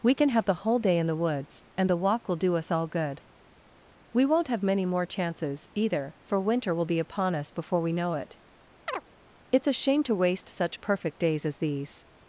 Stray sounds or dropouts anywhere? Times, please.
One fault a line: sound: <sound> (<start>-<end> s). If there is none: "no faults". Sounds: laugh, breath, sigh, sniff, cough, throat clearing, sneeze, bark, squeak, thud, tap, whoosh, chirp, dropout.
sound: chirp (8.9-9.0 s)